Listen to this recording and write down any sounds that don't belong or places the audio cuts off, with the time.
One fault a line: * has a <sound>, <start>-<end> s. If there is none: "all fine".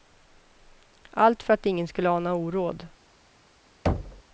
* has a thud, 3.9-4.2 s